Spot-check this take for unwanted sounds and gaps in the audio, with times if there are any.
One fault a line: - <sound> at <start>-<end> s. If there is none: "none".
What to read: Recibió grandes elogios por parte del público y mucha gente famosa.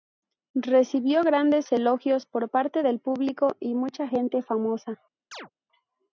- chirp at 5.3-5.5 s